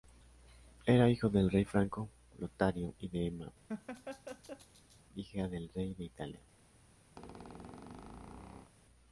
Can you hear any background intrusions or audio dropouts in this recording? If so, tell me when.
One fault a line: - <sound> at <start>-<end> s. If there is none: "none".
- laugh at 3.7-5.0 s
- squeak at 7.2-8.7 s